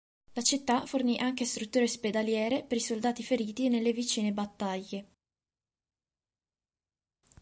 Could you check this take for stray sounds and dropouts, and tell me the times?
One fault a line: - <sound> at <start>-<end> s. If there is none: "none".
none